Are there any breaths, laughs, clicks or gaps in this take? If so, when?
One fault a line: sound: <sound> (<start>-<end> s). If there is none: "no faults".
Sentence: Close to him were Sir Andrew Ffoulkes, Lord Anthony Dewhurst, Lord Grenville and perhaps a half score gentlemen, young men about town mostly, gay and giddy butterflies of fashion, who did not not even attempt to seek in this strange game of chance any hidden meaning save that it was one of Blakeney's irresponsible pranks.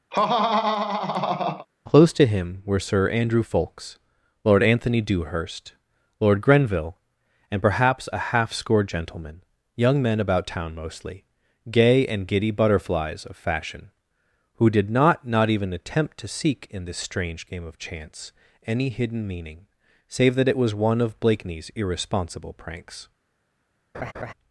sound: laugh (0.1-1.7 s)
sound: laugh (23.9-24.3 s)